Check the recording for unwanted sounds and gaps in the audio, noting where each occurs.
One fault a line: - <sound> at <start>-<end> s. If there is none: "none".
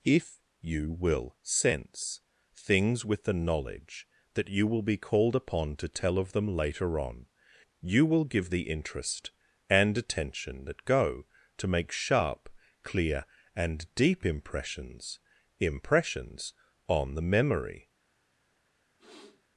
- sniff at 19.0-19.4 s